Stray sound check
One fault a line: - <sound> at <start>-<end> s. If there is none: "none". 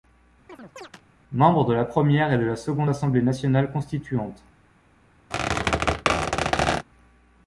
- chirp at 0.5-1.0 s
- squeak at 5.3-6.9 s